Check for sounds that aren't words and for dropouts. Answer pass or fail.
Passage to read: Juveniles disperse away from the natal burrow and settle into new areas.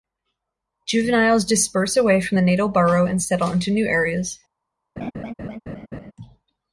fail